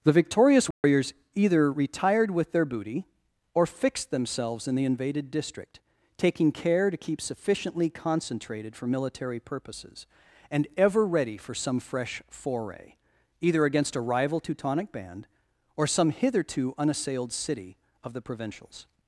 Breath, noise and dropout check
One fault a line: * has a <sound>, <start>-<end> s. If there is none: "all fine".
* has a dropout, 0.7-0.8 s